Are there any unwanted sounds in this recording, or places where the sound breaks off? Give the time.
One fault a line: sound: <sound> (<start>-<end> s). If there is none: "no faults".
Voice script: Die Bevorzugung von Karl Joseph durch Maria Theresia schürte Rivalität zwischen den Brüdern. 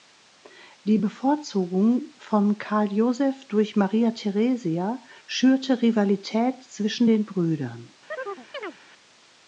sound: chirp (8.1-8.8 s)